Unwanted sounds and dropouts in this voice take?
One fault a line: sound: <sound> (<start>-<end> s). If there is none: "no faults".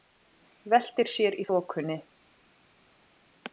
no faults